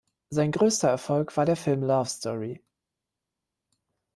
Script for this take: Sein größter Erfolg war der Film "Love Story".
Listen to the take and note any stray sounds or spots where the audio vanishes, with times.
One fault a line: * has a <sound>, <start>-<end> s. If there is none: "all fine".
all fine